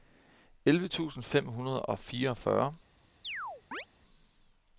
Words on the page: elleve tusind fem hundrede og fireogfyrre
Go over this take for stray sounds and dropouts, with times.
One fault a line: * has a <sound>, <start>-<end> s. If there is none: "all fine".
* has a chirp, 3.2-3.9 s